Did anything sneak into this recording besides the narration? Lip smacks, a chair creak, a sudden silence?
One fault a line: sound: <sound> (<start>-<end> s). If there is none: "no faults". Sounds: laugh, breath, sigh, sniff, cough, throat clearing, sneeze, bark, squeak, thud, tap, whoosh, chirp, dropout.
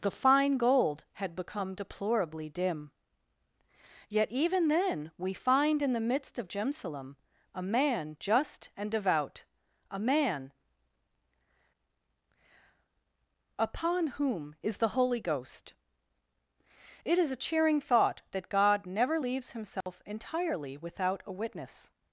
sound: dropout (19.8-19.9 s)